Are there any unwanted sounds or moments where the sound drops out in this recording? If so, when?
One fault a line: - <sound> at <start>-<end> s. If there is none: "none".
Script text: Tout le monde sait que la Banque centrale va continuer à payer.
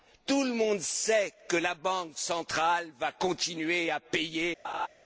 - laugh at 4.6-4.9 s